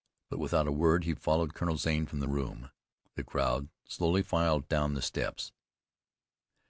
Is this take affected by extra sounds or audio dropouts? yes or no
no